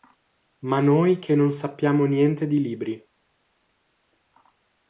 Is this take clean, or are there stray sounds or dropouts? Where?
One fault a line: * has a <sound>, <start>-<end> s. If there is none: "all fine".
all fine